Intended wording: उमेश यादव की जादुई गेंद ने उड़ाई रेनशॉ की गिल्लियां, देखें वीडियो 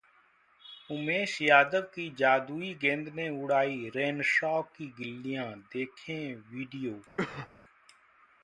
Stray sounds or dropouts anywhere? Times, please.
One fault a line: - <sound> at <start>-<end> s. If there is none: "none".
- cough at 7.2-7.5 s